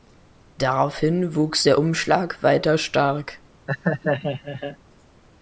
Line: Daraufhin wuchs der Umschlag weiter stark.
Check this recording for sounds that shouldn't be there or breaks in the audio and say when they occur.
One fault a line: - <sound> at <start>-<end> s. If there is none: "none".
- laugh at 3.7-4.8 s